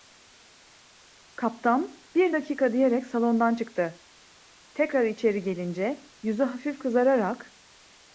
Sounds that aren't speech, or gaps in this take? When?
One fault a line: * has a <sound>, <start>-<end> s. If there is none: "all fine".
all fine